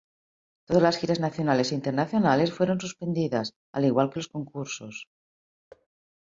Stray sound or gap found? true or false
true